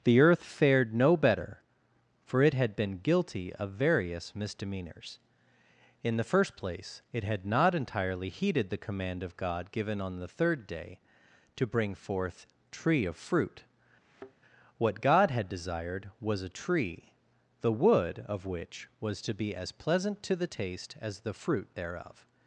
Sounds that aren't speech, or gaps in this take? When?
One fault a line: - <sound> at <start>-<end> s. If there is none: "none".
- thud at 14.0-14.3 s